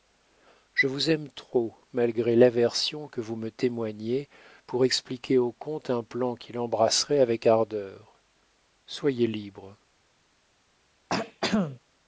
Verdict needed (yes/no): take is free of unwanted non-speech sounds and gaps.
no